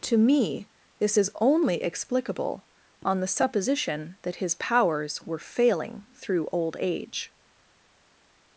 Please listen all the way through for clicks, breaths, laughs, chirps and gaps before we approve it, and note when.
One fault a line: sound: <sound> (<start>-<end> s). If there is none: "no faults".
no faults